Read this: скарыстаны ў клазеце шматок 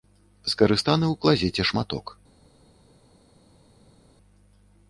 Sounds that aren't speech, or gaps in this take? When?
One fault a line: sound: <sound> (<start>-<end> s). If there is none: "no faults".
no faults